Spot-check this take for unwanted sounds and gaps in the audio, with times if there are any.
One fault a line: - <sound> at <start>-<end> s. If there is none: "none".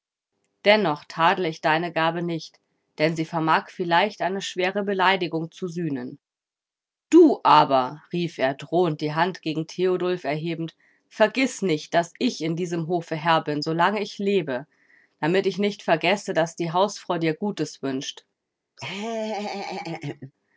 - laugh at 18.8-20.3 s